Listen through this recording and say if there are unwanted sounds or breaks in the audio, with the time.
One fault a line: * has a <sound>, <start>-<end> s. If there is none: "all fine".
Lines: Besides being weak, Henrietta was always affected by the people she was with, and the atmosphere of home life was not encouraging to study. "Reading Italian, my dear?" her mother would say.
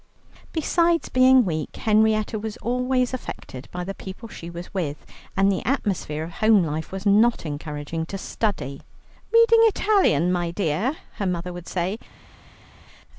all fine